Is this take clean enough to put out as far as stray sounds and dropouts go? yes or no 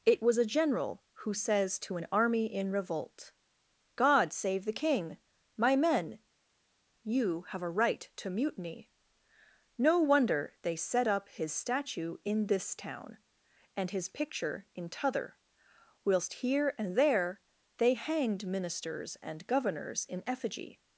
yes